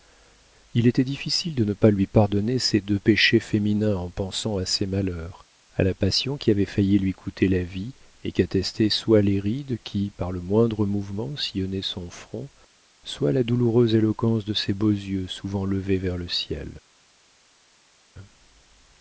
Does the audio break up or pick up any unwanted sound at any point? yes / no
no